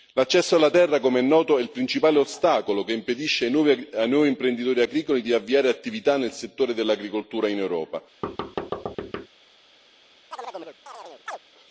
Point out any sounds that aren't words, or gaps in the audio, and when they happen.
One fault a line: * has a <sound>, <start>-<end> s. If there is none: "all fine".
* has a thud, 8.2-9.3 s
* has a chirp, 10.3-11.4 s